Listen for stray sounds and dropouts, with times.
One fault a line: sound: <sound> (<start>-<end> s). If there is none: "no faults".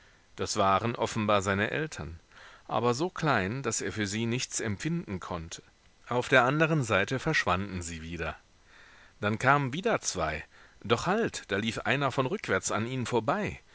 no faults